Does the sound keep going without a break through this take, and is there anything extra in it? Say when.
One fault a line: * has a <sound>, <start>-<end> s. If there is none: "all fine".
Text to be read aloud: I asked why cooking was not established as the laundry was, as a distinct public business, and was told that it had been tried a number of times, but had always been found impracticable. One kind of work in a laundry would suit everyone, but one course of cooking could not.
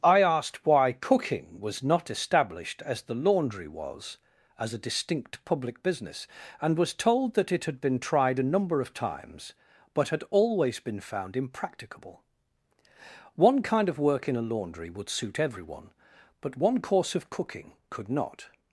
all fine